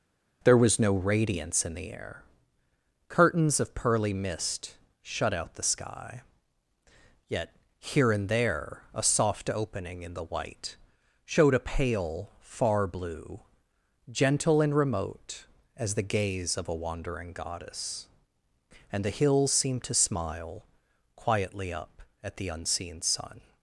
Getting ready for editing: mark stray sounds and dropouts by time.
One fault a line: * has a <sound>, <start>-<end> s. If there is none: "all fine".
all fine